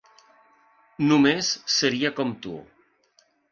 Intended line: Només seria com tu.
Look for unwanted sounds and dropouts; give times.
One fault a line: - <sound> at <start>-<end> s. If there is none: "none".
none